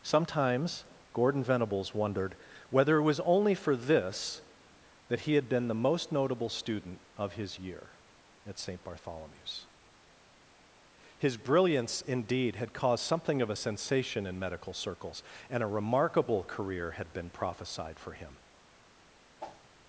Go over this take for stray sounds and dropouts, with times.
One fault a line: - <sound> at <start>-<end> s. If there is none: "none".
- whoosh at 19.4-19.7 s